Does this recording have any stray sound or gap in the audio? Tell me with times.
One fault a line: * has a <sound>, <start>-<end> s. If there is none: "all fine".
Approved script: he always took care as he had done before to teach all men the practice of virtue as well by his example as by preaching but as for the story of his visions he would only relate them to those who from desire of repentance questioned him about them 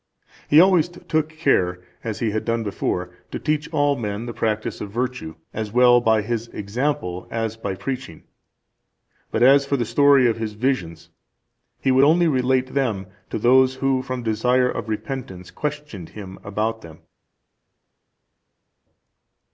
all fine